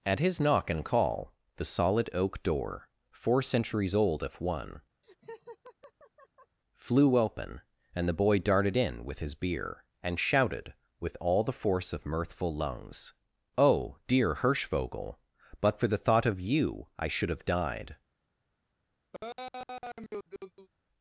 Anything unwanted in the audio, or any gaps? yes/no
yes